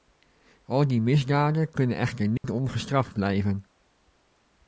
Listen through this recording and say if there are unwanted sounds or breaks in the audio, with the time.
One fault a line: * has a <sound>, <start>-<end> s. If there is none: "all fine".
* has a dropout, 2.4-2.4 s